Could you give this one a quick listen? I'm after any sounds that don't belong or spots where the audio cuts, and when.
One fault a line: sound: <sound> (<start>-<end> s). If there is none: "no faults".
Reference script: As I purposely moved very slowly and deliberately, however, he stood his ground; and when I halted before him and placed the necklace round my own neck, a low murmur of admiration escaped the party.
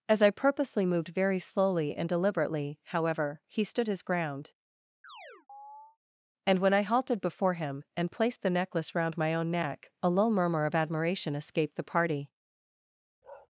sound: chirp (5.0-6.0 s)
sound: bark (13.2-13.5 s)